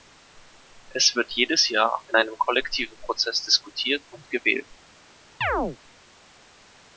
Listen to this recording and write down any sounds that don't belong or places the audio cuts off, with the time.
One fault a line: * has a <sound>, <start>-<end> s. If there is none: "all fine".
* has a chirp, 5.4-5.8 s